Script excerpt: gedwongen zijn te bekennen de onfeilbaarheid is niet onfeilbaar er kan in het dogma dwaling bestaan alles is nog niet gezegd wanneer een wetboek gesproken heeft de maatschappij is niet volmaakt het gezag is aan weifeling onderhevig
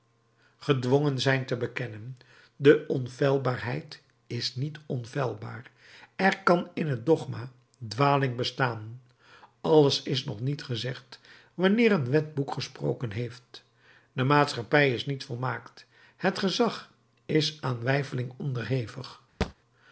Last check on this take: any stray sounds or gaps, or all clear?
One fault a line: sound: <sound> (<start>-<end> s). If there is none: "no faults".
sound: thud (19.4-19.5 s)